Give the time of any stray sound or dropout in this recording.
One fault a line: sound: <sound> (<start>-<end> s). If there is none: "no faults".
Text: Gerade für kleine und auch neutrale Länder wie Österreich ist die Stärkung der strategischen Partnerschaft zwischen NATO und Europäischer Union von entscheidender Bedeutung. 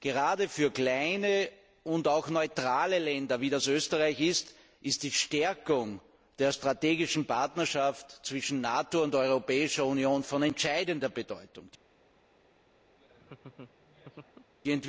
sound: laugh (12.9-14.5 s)